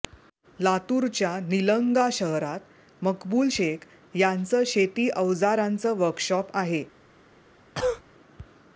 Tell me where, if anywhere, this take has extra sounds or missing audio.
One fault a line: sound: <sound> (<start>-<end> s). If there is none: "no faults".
sound: cough (7.7-8.0 s)